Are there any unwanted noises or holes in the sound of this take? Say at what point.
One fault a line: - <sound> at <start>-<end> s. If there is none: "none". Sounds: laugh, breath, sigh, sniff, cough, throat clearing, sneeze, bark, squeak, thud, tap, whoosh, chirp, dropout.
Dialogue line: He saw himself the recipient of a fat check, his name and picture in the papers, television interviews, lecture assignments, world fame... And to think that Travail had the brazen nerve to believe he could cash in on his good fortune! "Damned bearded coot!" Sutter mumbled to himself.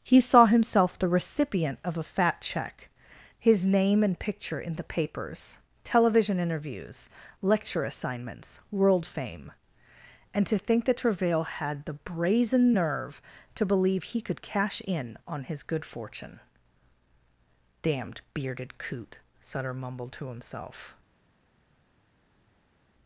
none